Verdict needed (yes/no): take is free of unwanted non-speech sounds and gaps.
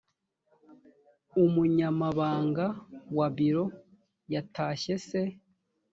yes